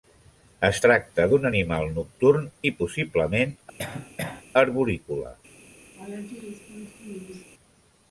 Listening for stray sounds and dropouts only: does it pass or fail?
fail